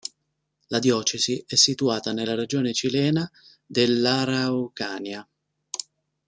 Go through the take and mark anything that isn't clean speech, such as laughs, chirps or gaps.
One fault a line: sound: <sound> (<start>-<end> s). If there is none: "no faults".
no faults